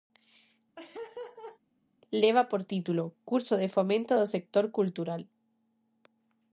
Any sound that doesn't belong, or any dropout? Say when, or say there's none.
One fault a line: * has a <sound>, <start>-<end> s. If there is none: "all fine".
* has a laugh, 0.8-1.6 s